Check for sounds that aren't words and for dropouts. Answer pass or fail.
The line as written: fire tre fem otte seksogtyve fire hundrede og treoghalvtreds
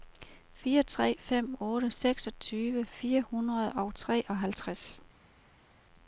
pass